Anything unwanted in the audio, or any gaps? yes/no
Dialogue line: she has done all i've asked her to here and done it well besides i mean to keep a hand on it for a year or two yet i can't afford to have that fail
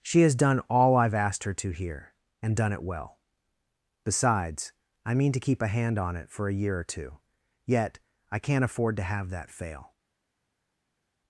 no